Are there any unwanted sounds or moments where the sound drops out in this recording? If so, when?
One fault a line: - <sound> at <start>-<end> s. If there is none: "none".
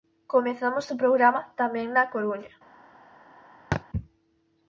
- thud at 3.7-3.8 s